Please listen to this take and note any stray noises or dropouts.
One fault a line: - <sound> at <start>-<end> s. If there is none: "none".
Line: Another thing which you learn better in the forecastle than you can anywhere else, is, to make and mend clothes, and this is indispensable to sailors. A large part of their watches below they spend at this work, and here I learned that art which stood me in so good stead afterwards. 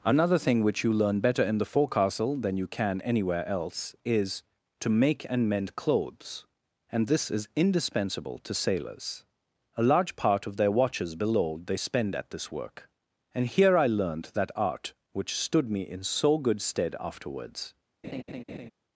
- laugh at 18.0-18.7 s